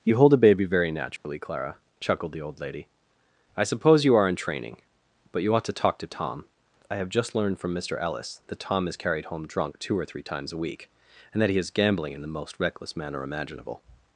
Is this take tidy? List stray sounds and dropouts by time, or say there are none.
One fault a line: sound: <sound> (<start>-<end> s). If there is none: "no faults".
sound: dropout (1.2-1.2 s)